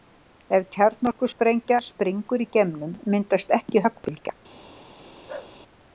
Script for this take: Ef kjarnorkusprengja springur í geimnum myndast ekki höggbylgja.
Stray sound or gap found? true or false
true